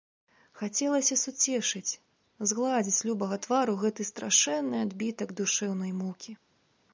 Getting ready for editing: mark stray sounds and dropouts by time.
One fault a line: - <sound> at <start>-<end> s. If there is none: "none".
none